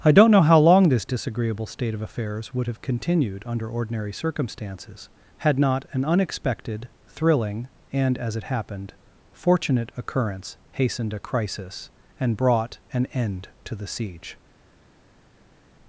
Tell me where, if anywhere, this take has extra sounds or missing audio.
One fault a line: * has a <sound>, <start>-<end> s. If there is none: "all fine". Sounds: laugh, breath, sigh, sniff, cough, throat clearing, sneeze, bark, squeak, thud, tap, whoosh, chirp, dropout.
all fine